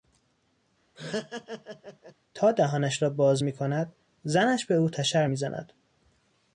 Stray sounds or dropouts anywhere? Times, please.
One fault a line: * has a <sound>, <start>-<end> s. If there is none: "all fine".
* has a laugh, 0.9-2.1 s